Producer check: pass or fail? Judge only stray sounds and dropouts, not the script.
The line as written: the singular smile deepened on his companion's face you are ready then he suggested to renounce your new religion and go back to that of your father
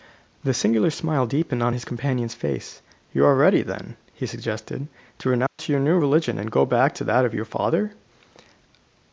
fail